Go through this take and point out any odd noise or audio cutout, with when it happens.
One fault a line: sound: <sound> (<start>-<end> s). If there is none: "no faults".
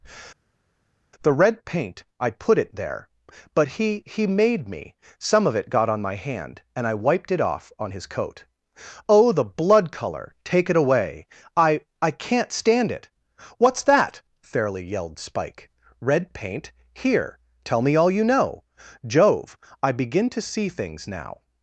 no faults